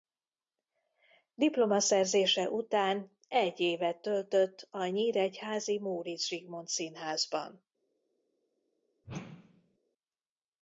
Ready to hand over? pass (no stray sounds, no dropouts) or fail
fail